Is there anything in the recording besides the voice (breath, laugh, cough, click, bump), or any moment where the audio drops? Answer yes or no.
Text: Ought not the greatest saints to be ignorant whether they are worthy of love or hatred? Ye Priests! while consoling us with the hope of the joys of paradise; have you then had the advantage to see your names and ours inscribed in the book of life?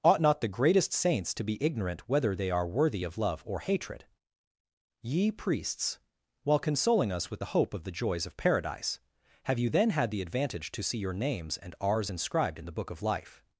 no